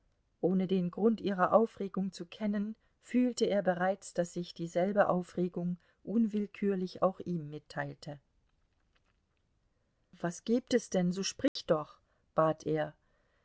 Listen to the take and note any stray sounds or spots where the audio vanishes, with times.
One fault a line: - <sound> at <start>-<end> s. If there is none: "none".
- dropout at 11.5-11.6 s